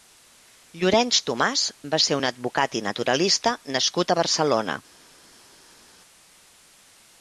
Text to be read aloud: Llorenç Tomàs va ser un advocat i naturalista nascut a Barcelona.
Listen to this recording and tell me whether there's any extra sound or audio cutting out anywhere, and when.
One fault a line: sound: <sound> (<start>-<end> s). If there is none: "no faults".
no faults